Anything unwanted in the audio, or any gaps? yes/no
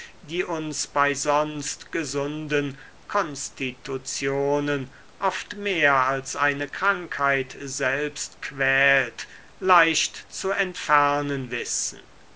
no